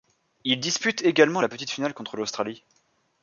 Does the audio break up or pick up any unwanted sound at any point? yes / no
no